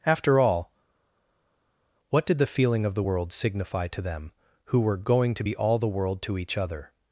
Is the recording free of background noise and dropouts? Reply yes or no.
yes